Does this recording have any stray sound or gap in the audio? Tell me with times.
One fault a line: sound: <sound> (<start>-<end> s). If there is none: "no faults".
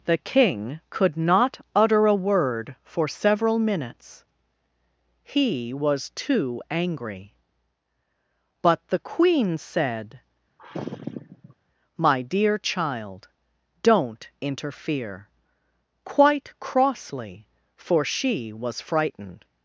sound: sigh (10.6-11.6 s)